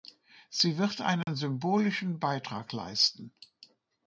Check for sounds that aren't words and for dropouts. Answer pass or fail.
fail